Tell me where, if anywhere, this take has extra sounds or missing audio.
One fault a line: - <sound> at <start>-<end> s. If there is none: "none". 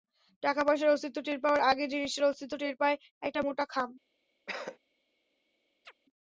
- cough at 4.5-4.8 s
- chirp at 5.8-5.9 s